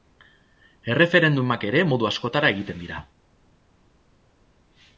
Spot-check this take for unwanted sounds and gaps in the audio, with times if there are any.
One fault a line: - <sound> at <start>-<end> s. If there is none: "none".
none